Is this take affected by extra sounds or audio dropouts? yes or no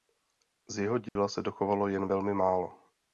yes